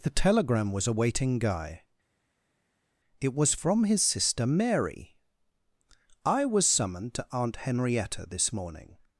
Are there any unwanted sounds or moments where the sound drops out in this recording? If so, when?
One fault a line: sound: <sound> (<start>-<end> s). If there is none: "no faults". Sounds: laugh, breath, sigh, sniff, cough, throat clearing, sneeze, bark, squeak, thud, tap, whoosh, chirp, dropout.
no faults